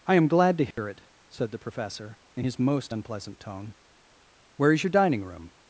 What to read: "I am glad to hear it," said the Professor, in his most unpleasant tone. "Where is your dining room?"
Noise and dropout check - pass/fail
fail